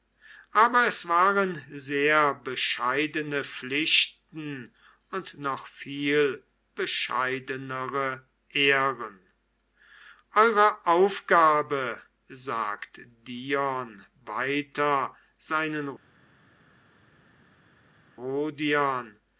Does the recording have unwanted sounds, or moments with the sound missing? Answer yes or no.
no